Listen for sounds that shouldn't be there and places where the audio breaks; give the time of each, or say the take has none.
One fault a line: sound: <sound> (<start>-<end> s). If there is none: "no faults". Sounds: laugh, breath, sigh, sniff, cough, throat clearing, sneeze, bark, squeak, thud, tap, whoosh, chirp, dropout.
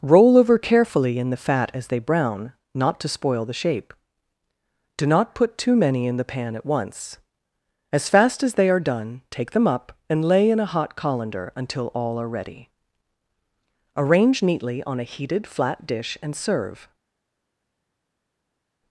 no faults